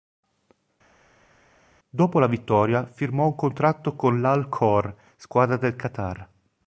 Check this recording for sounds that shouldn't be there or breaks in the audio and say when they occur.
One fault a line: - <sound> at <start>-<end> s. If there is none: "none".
none